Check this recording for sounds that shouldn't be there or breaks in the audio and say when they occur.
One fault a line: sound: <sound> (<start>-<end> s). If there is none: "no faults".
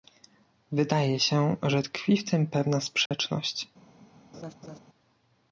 sound: dropout (3.1-3.1 s)
sound: laugh (4.3-4.8 s)